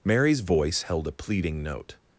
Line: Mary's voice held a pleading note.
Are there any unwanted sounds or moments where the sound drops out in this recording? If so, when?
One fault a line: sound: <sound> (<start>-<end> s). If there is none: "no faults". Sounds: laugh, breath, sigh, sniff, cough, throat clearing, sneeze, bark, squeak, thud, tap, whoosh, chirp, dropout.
no faults